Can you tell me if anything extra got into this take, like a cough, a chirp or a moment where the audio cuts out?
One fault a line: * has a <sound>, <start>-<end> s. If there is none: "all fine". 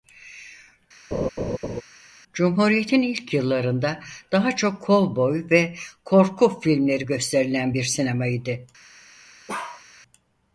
* has a laugh, 1.1-1.8 s
* has a bark, 9.5-9.8 s